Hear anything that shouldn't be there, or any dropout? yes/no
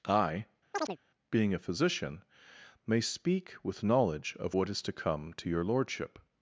yes